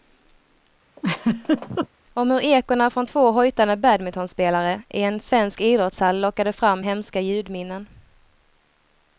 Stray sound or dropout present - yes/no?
yes